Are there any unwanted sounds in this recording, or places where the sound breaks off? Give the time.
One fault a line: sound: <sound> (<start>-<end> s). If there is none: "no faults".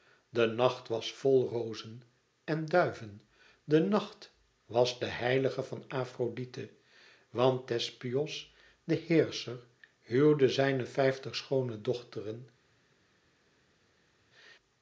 no faults